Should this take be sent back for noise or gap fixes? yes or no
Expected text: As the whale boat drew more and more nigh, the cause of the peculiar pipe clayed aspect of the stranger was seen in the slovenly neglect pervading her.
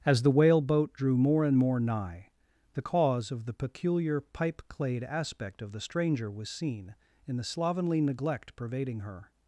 no